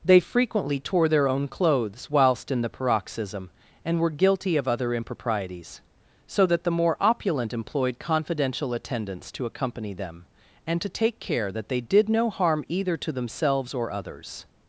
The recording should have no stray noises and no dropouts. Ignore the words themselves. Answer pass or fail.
pass